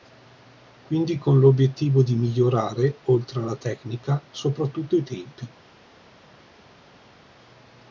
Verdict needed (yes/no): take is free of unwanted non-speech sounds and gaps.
yes